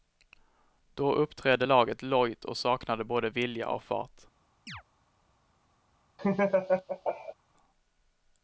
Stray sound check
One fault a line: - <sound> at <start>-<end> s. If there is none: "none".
- chirp at 4.7-4.8 s
- laugh at 6.2-7.3 s